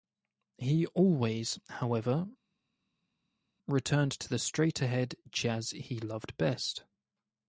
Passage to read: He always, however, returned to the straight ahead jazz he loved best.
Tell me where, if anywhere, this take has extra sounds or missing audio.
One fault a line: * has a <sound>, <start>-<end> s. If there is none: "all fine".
all fine